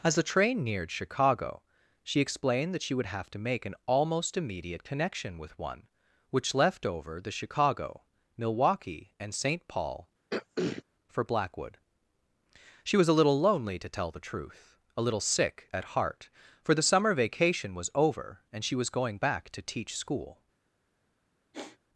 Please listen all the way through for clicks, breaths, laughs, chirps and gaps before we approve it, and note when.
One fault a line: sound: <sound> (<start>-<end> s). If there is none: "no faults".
sound: throat clearing (10.3-10.8 s)
sound: sigh (21.5-21.8 s)